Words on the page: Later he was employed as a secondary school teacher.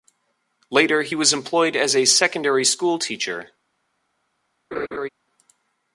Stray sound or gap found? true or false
true